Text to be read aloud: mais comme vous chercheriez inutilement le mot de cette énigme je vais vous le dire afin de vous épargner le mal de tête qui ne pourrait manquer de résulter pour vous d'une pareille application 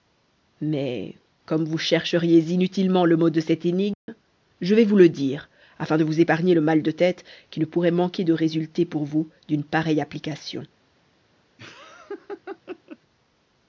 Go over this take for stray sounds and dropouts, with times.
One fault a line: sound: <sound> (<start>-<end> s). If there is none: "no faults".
sound: dropout (3.9-4.1 s)
sound: laugh (11.6-13.0 s)